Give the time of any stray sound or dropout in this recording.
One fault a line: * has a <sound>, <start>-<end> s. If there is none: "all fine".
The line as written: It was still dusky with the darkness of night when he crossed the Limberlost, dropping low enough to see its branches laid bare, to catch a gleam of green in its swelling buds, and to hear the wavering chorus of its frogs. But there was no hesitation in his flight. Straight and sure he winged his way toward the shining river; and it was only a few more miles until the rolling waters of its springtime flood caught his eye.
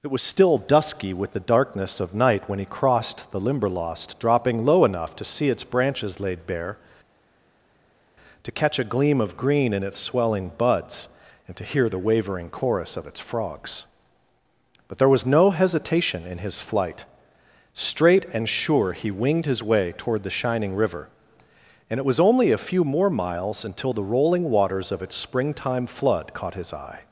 all fine